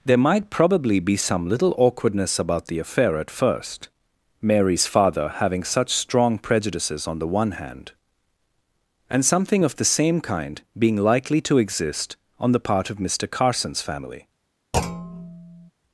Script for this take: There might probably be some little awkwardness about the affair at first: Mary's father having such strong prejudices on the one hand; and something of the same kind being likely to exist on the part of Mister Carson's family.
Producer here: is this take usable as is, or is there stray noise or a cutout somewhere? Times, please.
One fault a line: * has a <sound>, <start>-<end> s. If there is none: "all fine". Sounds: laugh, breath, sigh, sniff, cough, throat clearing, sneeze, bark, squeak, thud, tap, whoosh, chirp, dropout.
* has a thud, 14.7-15.7 s